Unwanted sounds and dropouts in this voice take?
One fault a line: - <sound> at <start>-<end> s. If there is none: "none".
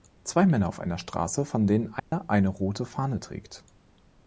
- dropout at 2.0-2.1 s